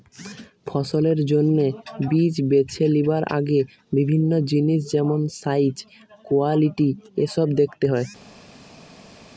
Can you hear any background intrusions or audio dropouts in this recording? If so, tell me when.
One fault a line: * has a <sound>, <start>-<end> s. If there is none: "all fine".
all fine